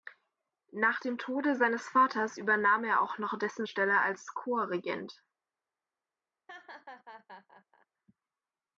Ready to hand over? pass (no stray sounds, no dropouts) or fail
fail